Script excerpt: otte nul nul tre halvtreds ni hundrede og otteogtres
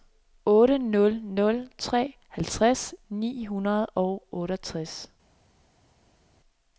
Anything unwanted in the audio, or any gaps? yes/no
no